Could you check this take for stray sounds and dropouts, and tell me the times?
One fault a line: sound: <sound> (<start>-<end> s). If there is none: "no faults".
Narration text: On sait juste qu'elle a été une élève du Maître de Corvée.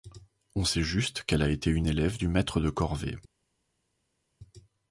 no faults